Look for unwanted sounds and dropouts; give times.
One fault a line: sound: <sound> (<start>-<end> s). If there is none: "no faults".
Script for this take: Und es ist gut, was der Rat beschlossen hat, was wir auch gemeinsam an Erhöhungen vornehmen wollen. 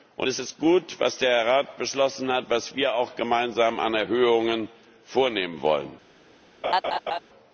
sound: laugh (6.6-7.2 s)